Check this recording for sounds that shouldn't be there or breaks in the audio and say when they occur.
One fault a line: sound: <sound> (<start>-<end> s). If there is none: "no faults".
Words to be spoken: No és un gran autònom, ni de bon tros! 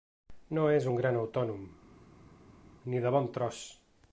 no faults